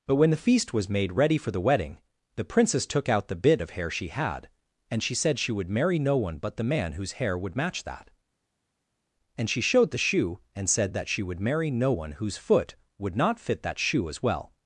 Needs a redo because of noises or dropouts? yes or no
no